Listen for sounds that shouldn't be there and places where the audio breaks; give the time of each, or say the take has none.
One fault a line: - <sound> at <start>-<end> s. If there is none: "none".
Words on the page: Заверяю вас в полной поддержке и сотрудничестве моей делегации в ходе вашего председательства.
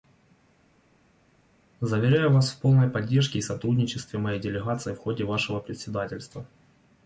none